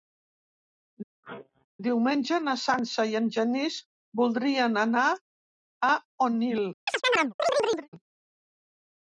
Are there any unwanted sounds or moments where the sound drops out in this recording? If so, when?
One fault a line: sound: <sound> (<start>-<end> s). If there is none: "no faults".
sound: sneeze (1.2-1.7 s)
sound: chirp (6.9-7.9 s)